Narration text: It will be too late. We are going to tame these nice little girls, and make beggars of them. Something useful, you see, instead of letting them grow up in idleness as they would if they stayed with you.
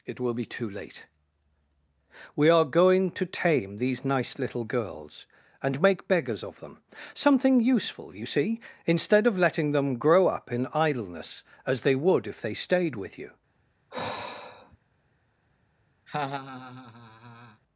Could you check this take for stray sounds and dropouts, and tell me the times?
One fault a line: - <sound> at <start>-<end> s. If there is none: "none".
- sigh at 13.9-14.8 s
- laugh at 16.1-17.6 s